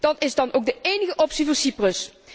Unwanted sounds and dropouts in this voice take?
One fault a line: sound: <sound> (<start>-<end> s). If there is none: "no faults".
no faults